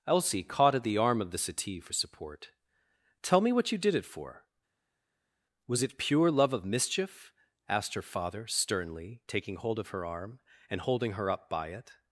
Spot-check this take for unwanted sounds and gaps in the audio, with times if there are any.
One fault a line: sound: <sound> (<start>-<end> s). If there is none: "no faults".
no faults